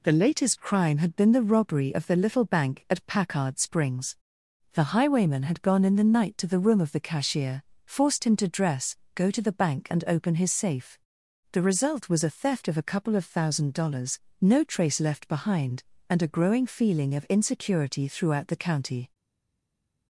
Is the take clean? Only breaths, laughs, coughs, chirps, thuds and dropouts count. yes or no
yes